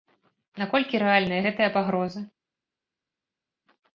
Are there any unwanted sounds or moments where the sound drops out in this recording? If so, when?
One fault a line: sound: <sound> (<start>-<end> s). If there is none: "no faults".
no faults